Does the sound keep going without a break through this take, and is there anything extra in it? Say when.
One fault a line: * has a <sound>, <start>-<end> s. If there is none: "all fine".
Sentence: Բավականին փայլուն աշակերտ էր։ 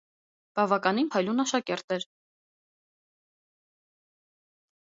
all fine